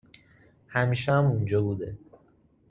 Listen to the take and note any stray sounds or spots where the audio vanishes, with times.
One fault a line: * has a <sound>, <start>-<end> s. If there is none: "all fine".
all fine